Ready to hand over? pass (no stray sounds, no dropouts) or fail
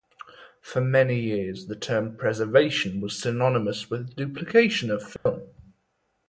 fail